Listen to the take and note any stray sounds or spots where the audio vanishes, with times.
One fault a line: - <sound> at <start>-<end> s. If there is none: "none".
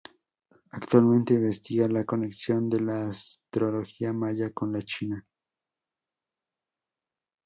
none